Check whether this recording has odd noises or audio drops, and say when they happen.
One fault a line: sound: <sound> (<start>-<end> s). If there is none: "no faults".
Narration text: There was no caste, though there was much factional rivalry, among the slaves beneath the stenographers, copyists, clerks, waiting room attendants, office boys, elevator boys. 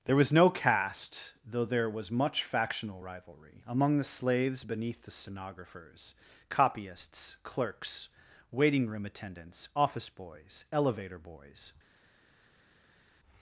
no faults